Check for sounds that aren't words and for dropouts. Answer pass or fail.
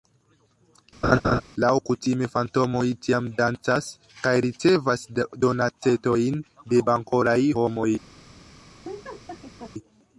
fail